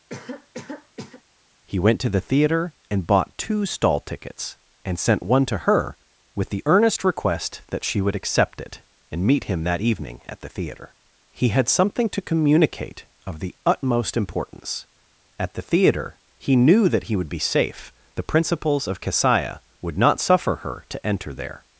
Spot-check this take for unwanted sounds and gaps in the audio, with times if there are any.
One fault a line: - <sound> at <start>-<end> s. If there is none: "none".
- cough at 0.1-1.2 s